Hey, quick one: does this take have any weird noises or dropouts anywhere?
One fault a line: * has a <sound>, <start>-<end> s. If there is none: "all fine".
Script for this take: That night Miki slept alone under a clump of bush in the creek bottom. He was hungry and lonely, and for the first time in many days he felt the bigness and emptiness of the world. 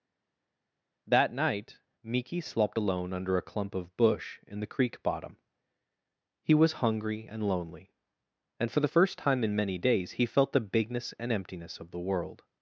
all fine